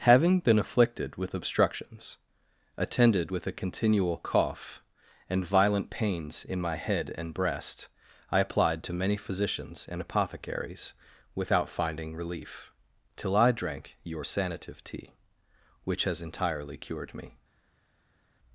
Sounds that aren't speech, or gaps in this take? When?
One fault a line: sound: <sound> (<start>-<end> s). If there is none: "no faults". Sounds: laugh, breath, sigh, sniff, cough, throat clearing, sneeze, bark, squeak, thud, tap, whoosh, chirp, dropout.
no faults